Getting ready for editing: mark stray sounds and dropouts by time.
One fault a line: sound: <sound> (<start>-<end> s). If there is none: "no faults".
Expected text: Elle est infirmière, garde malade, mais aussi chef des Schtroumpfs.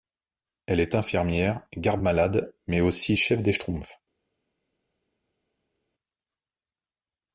no faults